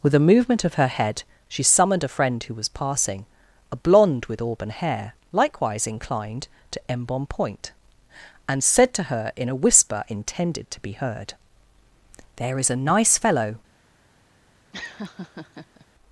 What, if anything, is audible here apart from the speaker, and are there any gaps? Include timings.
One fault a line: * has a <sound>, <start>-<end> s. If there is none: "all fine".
* has a laugh, 14.7-15.9 s